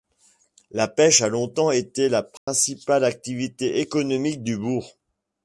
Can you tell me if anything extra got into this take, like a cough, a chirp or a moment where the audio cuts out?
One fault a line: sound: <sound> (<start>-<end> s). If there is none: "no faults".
sound: dropout (2.4-2.5 s)